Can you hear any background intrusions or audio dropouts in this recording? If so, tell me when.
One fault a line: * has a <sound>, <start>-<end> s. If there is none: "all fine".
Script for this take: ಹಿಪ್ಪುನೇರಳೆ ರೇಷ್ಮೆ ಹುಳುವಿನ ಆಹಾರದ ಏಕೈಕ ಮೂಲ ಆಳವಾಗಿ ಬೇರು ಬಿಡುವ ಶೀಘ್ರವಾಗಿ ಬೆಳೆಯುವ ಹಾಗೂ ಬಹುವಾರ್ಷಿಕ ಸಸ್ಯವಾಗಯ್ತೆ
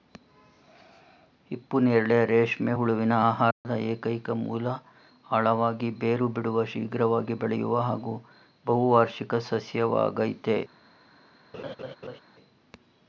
* has a dropout, 3.5-3.6 s
* has a laugh, 11.5-12.2 s